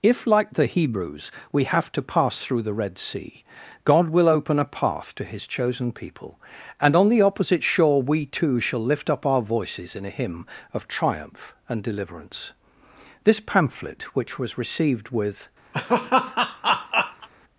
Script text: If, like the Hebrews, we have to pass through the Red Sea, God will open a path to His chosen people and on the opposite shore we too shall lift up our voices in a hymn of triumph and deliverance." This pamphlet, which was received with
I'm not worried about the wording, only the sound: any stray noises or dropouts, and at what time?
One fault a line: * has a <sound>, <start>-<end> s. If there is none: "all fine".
* has a laugh, 15.7-17.3 s